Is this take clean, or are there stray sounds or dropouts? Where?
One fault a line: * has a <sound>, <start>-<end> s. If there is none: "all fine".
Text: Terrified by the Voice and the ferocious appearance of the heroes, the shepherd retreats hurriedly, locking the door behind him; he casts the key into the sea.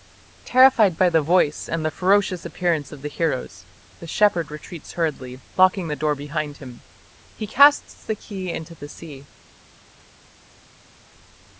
all fine